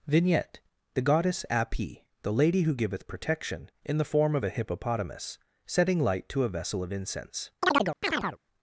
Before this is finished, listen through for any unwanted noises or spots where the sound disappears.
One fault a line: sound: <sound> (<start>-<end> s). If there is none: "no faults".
sound: chirp (7.6-8.4 s)